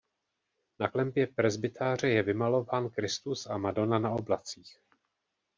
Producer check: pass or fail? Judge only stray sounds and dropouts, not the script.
pass